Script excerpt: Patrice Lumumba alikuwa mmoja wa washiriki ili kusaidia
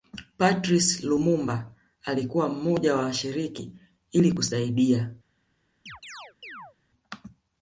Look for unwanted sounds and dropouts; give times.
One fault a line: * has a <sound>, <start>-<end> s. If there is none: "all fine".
* has a chirp, 5.9-6.8 s